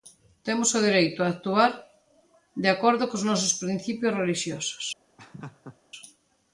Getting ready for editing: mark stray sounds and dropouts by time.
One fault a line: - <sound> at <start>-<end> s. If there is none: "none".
- laugh at 5.2-5.8 s